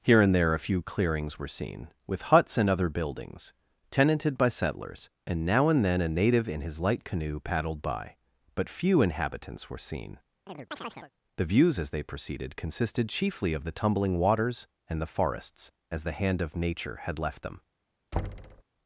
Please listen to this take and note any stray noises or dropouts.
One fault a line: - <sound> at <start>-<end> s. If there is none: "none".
- chirp at 10.5-11.1 s
- thud at 18.1-18.6 s